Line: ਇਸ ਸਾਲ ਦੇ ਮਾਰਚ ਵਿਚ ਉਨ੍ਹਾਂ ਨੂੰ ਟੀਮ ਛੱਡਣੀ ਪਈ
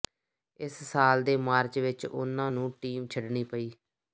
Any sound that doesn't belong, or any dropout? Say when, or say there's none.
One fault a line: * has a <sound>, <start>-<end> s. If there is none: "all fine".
all fine